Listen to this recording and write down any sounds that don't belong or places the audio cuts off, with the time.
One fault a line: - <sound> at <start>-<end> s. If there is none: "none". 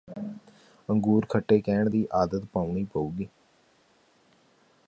none